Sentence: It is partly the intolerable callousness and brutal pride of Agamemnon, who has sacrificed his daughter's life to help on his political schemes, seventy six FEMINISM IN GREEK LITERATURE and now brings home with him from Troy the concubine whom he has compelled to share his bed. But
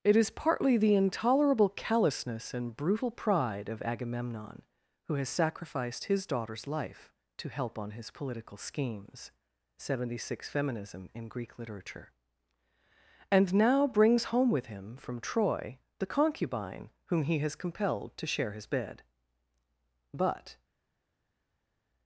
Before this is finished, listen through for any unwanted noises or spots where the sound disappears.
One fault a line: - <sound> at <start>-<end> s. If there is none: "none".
none